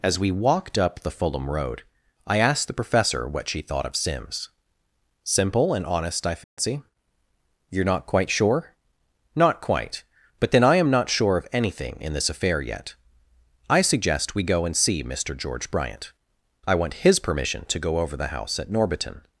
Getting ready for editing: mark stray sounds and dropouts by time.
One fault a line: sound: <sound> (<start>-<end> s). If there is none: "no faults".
sound: dropout (6.4-6.6 s)